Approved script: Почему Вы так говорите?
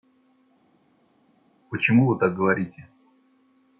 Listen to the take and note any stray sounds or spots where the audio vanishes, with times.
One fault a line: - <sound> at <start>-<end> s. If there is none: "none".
none